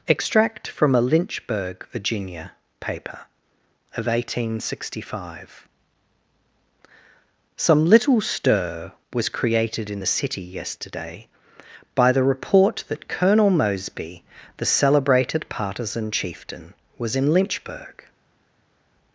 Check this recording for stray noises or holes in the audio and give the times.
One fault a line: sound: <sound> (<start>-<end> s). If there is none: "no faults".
no faults